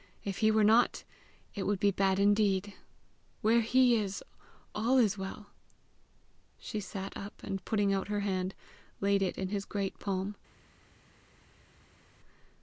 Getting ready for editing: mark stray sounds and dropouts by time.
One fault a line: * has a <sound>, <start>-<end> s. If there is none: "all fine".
all fine